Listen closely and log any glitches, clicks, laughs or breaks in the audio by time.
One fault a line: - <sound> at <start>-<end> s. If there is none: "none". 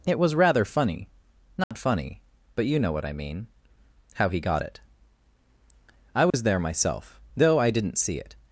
- dropout at 1.6-1.7 s
- dropout at 6.3-6.3 s